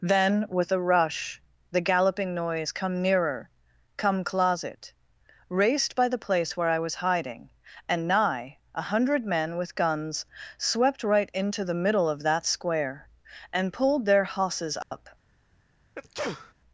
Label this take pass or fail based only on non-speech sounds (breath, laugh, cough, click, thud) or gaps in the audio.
fail